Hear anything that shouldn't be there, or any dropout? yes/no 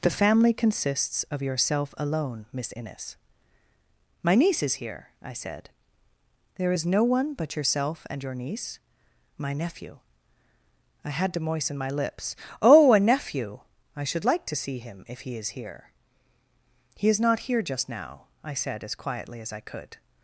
no